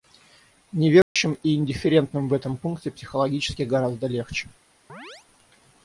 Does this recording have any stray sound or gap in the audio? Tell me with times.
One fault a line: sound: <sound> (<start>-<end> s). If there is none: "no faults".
sound: dropout (1.0-1.2 s)
sound: chirp (4.9-5.3 s)